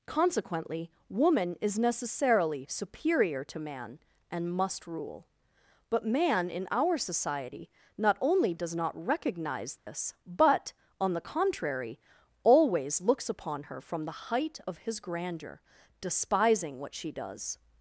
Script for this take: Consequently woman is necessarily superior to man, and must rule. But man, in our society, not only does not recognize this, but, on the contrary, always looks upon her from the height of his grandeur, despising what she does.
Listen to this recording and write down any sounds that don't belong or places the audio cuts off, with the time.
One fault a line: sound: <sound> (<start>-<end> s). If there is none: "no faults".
sound: dropout (9.8-9.9 s)